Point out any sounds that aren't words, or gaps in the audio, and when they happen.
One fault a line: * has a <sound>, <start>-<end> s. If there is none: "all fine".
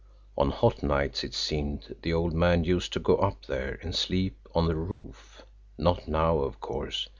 * has a dropout, 4.9-5.0 s